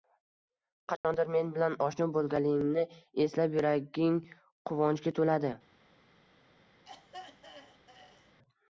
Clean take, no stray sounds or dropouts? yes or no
no